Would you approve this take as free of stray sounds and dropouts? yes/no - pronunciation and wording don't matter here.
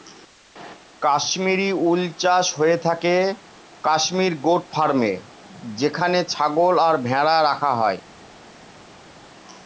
yes